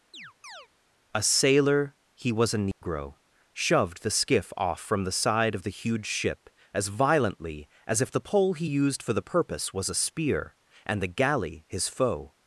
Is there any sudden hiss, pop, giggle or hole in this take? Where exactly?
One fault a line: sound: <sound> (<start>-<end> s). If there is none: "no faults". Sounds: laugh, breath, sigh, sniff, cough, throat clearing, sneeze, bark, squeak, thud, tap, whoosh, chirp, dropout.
sound: chirp (0.1-0.7 s)
sound: dropout (2.7-2.8 s)